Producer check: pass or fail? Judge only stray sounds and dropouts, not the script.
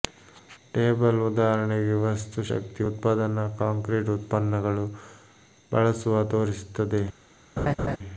fail